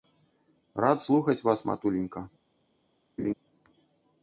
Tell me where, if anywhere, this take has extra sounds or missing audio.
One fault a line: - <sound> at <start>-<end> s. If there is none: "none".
- laugh at 3.2-3.3 s